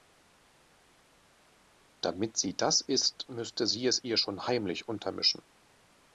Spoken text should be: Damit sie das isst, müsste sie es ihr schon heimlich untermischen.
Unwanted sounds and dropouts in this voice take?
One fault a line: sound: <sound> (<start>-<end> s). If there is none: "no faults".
no faults